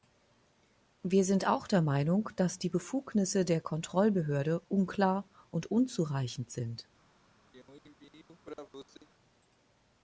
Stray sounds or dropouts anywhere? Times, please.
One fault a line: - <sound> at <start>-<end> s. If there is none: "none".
- throat clearing at 7.5-9.1 s